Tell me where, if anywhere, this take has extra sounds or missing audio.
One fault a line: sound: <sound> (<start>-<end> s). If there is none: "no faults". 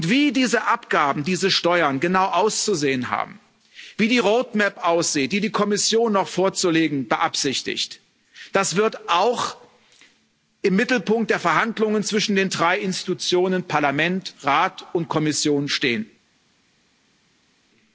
no faults